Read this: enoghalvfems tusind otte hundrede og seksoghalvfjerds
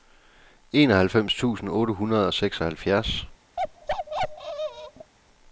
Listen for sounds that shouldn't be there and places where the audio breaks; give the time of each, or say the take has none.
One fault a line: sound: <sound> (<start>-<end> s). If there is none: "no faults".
sound: bark (3.6-5.1 s)